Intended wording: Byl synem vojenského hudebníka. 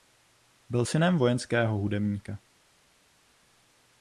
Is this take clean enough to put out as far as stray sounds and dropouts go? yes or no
yes